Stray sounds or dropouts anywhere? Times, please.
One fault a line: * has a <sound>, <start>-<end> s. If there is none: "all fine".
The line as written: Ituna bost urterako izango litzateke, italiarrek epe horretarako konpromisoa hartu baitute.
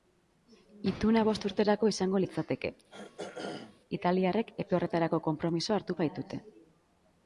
* has a throat clearing, 2.9-3.8 s